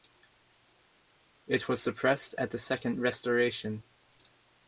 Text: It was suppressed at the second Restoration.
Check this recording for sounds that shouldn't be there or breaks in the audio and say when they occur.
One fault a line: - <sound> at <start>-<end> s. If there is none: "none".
none